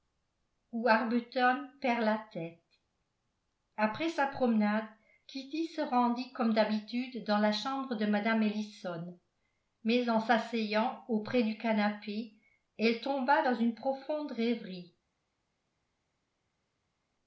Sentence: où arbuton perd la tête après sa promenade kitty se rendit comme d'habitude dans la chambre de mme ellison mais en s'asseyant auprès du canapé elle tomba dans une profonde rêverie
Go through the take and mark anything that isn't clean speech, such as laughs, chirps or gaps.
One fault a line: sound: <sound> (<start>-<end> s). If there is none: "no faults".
no faults